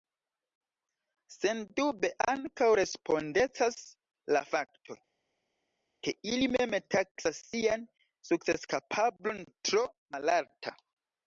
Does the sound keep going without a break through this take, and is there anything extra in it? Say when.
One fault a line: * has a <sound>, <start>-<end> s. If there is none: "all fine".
all fine